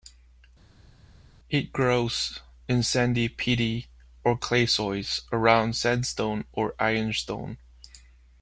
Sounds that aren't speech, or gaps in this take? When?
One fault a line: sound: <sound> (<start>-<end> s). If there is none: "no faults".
no faults